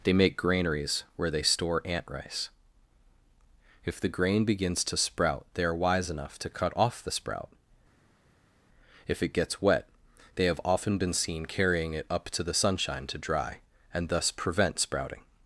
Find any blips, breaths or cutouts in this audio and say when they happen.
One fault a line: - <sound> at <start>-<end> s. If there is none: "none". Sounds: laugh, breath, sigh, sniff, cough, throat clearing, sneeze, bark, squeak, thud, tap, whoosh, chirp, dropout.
none